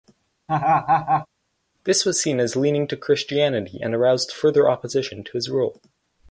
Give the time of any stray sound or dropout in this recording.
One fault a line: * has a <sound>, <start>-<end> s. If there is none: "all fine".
* has a laugh, 0.5-1.3 s